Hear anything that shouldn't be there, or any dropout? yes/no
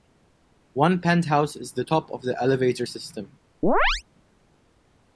yes